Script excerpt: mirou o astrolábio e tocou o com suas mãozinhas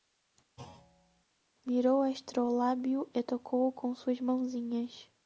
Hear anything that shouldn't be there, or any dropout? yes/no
yes